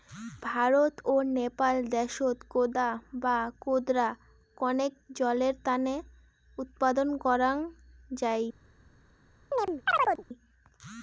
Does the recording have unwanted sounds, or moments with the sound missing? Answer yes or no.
yes